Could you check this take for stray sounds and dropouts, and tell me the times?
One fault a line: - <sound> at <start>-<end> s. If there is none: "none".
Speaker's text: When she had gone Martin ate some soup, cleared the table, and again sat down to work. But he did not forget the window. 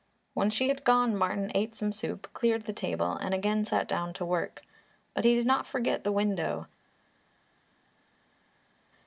none